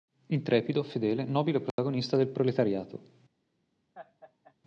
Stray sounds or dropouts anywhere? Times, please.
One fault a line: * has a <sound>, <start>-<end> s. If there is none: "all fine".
* has a dropout, 1.7-1.8 s
* has a laugh, 3.9-4.5 s